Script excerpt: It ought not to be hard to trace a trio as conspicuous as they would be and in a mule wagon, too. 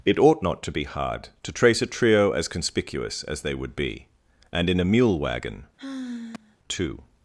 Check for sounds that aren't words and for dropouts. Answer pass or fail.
fail